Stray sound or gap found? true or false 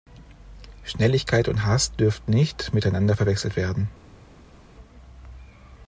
false